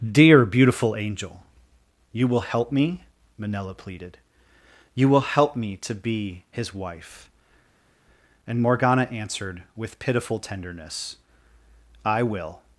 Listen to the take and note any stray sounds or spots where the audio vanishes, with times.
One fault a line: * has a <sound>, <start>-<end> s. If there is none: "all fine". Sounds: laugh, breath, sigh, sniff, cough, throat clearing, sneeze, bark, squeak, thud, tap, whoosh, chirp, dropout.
all fine